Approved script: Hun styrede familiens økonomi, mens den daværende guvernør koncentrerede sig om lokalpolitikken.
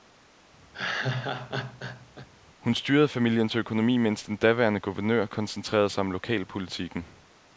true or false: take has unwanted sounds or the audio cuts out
true